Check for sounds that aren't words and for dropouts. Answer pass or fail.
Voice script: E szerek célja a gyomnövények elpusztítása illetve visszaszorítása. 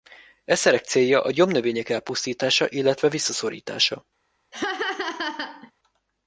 fail